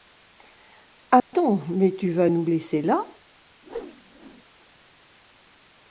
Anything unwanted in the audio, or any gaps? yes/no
yes